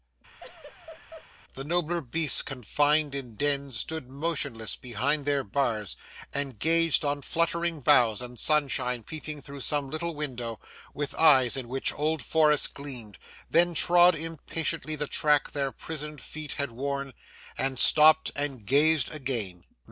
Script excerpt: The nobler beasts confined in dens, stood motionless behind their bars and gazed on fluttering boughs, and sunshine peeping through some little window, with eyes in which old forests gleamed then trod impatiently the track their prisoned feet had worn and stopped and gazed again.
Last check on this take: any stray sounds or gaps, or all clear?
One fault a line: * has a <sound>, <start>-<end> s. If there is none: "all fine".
* has a laugh, 0.4-1.3 s